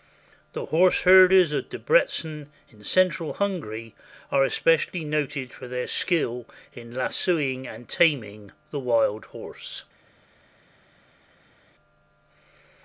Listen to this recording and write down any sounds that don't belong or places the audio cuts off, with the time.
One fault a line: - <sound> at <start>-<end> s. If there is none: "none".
none